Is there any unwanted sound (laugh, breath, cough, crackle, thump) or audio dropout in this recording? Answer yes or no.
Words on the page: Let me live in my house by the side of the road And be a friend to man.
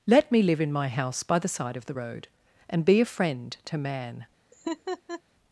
yes